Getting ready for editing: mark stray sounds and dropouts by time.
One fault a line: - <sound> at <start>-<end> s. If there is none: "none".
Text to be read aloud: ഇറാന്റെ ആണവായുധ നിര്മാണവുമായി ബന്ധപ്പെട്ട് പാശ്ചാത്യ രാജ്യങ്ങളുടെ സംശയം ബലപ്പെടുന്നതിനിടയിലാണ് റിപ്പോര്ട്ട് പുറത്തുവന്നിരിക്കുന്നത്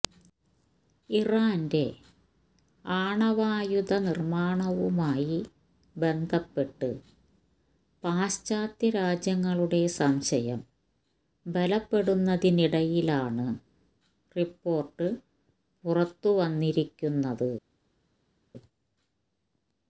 none